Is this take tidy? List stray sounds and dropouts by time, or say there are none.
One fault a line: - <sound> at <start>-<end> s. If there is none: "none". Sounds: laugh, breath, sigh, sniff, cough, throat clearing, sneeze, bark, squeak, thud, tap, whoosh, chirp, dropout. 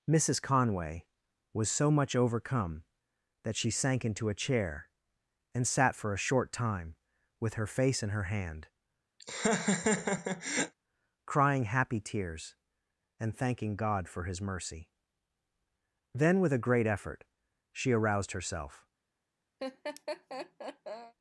- laugh at 9.2-10.7 s
- laugh at 19.6-21.1 s